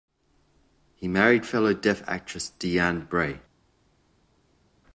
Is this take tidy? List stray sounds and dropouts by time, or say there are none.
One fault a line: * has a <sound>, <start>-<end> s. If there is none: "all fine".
all fine